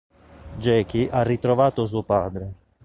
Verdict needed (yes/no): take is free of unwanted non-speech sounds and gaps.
yes